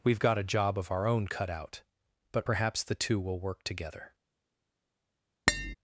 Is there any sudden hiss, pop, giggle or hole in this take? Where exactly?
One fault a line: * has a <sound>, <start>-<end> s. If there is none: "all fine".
* has a tap, 5.5-5.7 s